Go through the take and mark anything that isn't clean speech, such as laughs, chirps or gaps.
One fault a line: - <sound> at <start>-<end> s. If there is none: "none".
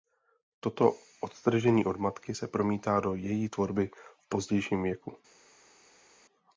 none